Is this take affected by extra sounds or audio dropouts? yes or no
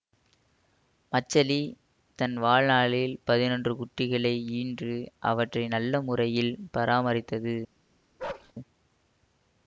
yes